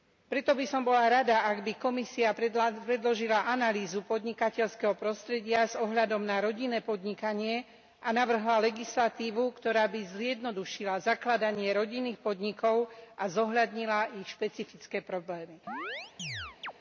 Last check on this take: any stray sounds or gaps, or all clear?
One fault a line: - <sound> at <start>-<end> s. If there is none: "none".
- chirp at 15.7-16.7 s